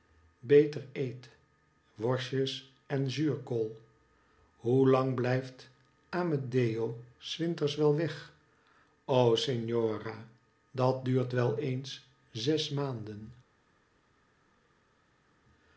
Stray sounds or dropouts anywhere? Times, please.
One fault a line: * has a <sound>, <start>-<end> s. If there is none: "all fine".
all fine